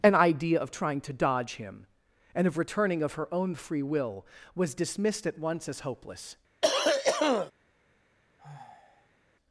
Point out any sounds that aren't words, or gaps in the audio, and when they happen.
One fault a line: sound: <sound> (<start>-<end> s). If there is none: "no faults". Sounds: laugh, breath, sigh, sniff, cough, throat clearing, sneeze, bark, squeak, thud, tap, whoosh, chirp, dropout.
sound: cough (6.6-7.5 s)
sound: sigh (8.4-9.2 s)